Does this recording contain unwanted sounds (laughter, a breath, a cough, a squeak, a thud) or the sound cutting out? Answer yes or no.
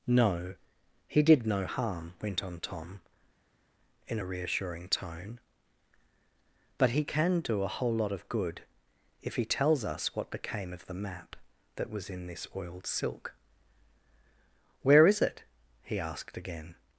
no